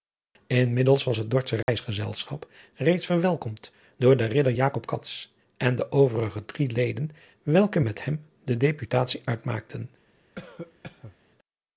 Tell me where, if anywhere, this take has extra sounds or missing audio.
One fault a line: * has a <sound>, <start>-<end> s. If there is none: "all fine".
* has a dropout, 1.6-1.7 s
* has a cough, 10.4-11.2 s